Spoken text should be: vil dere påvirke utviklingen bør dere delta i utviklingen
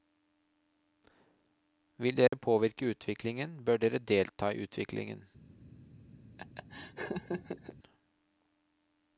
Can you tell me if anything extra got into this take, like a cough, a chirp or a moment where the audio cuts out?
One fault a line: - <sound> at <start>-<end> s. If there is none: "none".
- dropout at 2.3-2.3 s
- laugh at 6.4-7.8 s